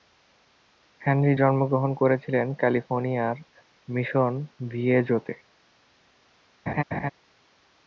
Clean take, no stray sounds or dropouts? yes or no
no